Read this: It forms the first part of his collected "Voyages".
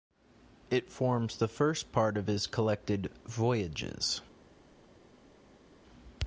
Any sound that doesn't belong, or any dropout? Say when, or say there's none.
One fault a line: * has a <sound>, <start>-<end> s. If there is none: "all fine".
all fine